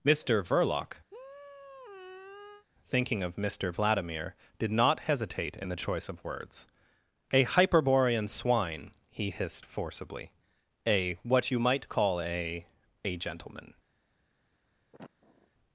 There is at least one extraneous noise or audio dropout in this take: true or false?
true